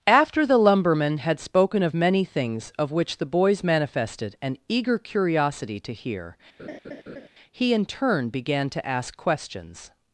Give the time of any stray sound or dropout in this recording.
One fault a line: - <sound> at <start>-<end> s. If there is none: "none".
- laugh at 6.6-7.3 s